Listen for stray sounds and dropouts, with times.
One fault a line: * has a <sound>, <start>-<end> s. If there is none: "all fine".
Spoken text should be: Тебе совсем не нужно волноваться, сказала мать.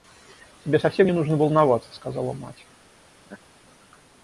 * has a laugh, 3.3-3.4 s